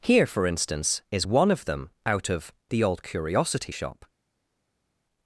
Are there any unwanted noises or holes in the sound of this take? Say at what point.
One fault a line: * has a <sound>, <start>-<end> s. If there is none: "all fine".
all fine